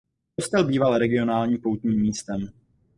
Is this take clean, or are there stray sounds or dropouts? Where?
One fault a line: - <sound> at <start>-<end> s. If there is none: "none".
none